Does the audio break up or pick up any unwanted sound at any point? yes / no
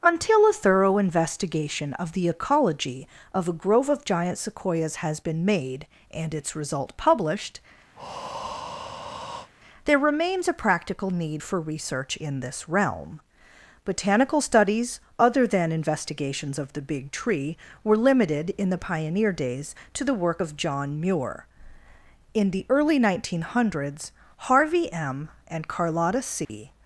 yes